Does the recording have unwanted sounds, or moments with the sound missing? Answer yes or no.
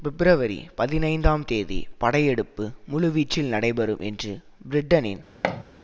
yes